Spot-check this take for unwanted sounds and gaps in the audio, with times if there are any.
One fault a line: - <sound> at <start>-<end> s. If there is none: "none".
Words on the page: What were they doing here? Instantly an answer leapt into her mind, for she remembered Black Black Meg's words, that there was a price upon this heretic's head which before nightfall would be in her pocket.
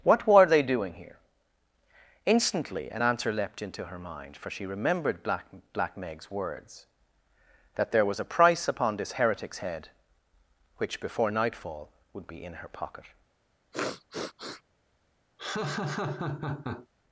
- sniff at 13.7-14.6 s
- laugh at 15.4-16.9 s